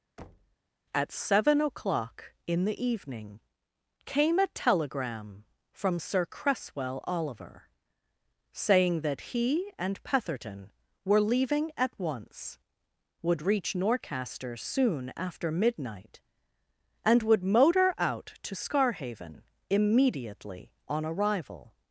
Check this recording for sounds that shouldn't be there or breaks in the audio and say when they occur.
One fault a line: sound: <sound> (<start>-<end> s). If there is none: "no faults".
sound: thud (0.2-0.6 s)